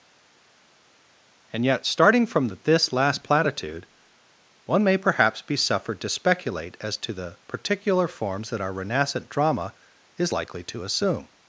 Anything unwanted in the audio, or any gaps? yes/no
no